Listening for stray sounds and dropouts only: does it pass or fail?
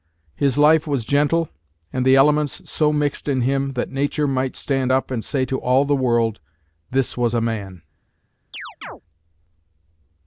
fail